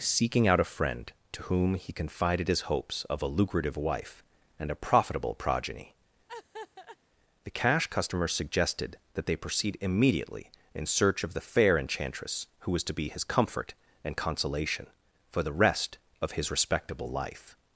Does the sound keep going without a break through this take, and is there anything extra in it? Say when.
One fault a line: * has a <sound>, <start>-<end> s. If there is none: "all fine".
* has a laugh, 6.3-7.0 s